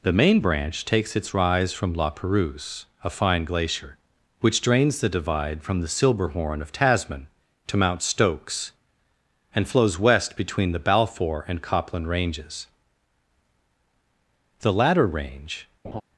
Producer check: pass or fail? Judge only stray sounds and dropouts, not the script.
fail